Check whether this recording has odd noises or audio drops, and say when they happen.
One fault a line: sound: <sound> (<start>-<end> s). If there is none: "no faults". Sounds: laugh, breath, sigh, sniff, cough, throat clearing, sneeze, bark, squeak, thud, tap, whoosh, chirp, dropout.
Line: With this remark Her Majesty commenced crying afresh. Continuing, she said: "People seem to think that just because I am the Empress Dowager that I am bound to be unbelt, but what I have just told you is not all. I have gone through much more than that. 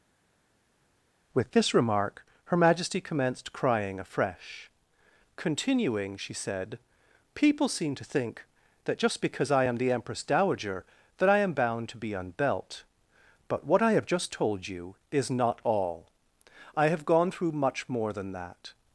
no faults